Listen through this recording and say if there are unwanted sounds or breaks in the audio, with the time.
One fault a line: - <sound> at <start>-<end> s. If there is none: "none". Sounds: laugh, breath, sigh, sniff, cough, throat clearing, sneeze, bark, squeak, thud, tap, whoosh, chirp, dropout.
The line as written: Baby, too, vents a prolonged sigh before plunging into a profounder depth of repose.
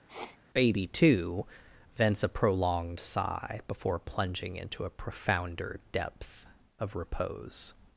- sniff at 0.1-0.4 s